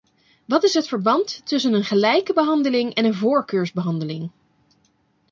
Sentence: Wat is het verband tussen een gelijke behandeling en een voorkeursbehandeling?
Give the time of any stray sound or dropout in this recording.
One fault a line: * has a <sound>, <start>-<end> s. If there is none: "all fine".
all fine